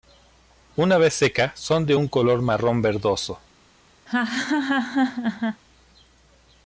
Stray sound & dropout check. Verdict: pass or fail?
fail